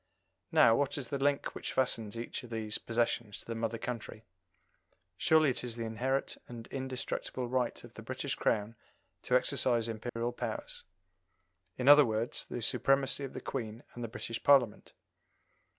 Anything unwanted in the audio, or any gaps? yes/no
yes